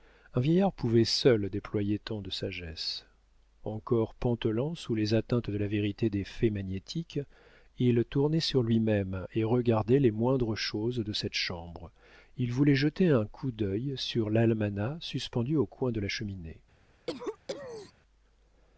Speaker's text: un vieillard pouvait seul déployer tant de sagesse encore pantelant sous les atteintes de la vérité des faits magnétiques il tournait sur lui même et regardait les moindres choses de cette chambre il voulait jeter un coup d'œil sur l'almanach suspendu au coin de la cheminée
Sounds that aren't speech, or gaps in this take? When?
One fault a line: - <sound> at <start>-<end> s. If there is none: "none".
- cough at 17.1-17.9 s